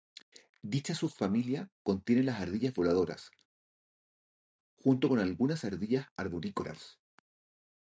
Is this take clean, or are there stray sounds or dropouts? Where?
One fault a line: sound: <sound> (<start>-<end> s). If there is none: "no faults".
no faults